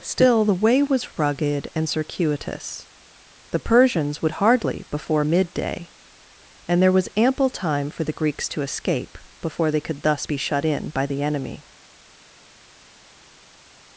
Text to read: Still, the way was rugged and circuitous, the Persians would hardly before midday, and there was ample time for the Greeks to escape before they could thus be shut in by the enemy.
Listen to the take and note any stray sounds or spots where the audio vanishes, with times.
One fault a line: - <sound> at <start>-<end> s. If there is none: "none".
none